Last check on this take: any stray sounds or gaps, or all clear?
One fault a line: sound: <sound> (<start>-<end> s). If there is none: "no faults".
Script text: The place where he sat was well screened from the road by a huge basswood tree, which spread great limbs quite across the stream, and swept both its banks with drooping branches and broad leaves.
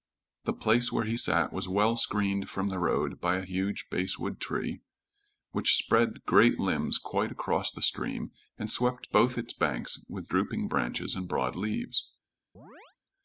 sound: chirp (12.5-13.0 s)